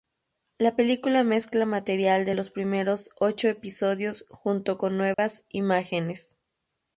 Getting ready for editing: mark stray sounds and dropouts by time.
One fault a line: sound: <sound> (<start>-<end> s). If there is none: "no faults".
sound: dropout (5.1-5.2 s)